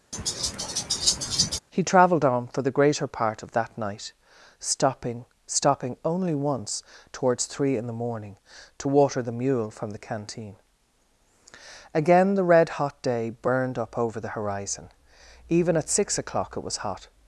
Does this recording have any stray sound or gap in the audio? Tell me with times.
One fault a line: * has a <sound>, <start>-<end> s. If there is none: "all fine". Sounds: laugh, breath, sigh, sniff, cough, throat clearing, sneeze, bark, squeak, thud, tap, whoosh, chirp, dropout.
* has a laugh, 0.1-1.6 s